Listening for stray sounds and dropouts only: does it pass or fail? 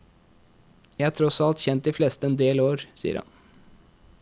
pass